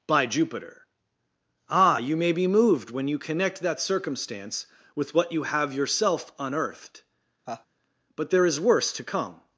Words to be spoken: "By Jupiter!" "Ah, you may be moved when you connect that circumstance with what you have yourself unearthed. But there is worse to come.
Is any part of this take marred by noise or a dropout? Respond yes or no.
yes